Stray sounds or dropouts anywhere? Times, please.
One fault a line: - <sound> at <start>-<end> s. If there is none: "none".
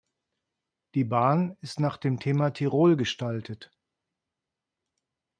none